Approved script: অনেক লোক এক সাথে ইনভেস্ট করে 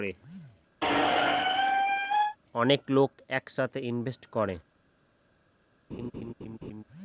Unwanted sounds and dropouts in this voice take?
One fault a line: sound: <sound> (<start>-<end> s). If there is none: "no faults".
sound: squeak (0.8-2.4 s)
sound: laugh (5.9-6.8 s)